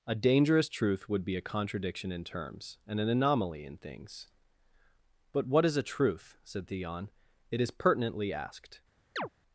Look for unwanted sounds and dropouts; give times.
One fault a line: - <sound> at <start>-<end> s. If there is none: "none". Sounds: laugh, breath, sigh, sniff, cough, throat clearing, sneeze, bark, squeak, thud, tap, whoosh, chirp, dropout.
- chirp at 9.2-9.3 s